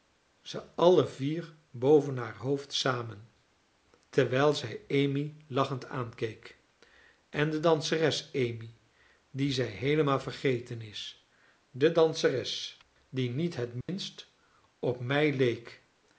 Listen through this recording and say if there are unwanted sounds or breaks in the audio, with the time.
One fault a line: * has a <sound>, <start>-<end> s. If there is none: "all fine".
* has a dropout, 13.8-13.9 s